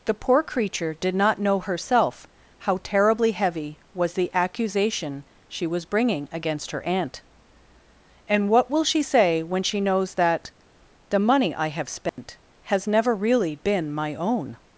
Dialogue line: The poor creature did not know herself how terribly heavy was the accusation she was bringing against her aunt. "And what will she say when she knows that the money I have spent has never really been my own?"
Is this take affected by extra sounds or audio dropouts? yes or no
yes